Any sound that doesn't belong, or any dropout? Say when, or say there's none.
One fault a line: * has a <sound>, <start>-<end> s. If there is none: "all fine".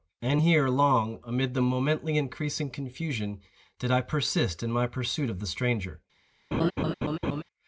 * has a laugh, 6.5-7.4 s